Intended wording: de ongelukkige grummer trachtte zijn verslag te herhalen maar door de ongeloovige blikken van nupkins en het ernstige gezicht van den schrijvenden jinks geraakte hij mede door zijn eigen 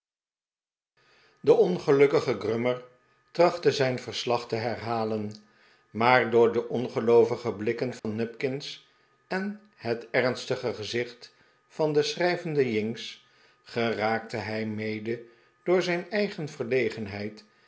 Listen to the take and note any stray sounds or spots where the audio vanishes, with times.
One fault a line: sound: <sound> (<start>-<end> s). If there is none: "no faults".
sound: dropout (8.0-8.0 s)